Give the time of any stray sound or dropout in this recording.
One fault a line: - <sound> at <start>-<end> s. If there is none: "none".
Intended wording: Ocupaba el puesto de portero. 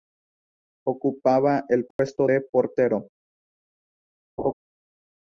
- dropout at 1.9-2.0 s
- laugh at 4.4-4.5 s